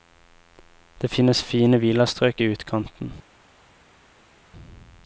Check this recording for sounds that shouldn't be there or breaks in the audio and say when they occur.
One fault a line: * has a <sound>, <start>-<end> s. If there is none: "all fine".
all fine